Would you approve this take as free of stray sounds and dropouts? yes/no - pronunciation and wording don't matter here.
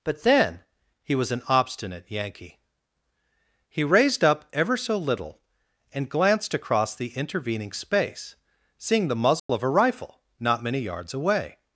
no